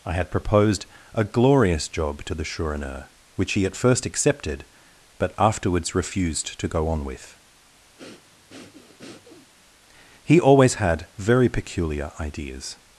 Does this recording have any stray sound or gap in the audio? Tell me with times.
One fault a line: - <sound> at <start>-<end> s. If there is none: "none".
- breath at 8.0-9.5 s